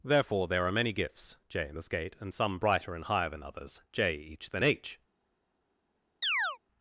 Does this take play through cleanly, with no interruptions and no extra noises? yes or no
no